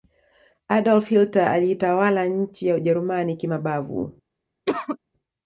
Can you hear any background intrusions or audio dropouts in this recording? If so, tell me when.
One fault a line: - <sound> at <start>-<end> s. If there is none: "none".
- cough at 4.7-5.0 s